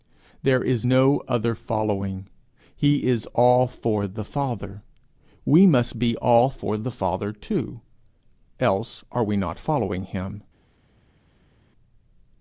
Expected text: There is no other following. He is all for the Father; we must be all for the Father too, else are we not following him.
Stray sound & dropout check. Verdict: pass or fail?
pass